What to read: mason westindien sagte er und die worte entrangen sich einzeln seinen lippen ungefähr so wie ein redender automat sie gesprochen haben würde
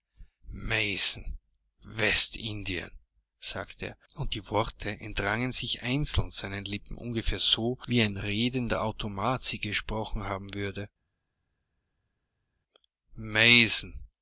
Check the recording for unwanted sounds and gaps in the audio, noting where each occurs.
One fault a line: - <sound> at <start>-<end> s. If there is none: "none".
none